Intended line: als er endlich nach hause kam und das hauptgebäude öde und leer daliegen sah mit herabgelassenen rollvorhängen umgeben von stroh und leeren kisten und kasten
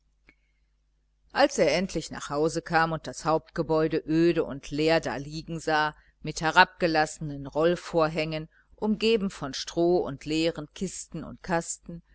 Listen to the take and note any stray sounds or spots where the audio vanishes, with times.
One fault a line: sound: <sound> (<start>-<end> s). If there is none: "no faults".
no faults